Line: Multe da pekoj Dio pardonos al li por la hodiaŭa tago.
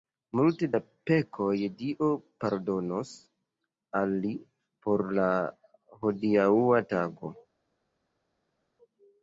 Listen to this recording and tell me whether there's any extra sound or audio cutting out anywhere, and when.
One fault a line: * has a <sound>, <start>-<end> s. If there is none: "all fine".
all fine